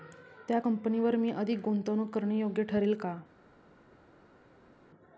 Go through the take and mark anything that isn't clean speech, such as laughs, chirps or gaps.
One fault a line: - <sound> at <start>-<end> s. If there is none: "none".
none